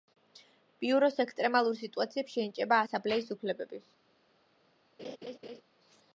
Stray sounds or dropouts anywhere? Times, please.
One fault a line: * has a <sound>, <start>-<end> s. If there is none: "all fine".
* has a laugh, 5.0-5.6 s